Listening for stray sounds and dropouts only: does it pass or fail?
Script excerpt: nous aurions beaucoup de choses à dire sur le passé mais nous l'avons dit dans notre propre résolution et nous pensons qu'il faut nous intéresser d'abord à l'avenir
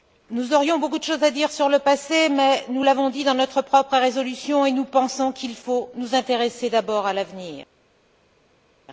pass